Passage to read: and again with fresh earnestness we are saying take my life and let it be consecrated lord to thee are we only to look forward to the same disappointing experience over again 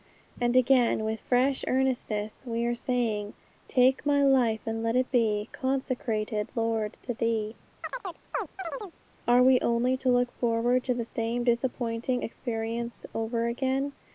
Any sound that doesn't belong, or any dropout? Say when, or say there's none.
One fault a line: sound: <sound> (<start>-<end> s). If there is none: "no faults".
sound: chirp (7.8-9.0 s)